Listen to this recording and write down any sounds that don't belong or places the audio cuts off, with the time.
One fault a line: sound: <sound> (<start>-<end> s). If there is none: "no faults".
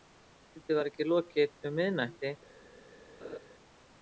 sound: laugh (3.2-3.4 s)